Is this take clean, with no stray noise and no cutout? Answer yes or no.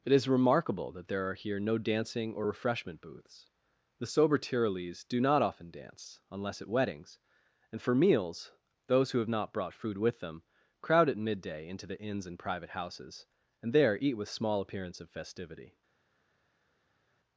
yes